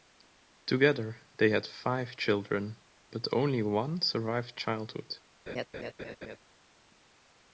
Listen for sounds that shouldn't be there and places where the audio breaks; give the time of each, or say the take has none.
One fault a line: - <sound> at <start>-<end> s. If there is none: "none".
- laugh at 5.5-6.4 s